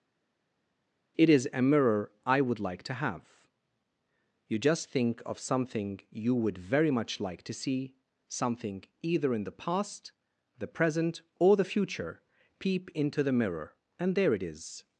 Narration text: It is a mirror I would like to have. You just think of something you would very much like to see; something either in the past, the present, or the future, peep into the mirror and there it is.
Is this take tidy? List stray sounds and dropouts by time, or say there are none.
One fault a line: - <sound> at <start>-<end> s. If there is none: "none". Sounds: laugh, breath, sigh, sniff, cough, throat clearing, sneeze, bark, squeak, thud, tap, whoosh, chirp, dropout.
none